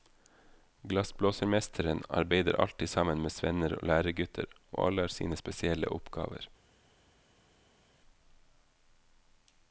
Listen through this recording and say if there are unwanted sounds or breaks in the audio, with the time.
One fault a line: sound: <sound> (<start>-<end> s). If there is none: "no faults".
no faults